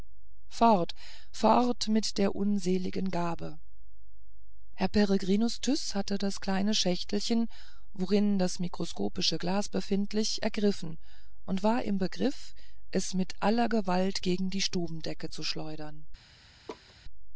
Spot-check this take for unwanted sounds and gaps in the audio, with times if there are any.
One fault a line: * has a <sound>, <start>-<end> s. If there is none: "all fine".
* has a laugh, 16.7-16.9 s